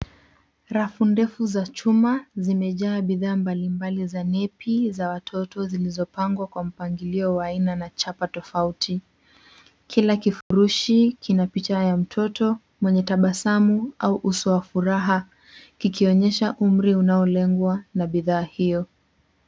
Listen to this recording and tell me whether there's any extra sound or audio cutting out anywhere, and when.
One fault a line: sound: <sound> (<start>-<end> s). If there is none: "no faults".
sound: dropout (10.4-10.5 s)